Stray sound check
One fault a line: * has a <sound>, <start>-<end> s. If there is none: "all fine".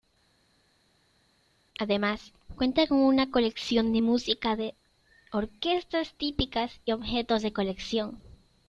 all fine